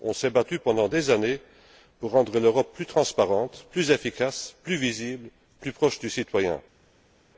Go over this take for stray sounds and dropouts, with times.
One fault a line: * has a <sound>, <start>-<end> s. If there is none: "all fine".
all fine